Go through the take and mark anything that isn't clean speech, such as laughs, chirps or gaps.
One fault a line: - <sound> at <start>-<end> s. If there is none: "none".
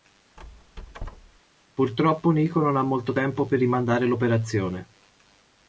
- squeak at 0.4-1.4 s